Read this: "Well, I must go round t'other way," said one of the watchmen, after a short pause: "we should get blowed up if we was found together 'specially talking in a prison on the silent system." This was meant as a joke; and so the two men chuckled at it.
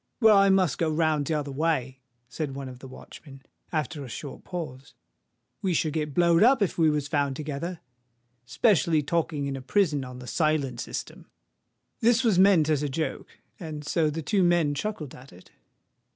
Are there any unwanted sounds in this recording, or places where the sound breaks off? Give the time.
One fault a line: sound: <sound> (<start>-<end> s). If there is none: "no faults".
no faults